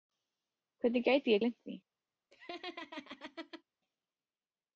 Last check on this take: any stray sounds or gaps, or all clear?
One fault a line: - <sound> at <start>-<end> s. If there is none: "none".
- laugh at 2.3-3.6 s